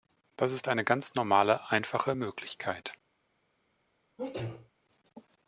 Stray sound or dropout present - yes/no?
yes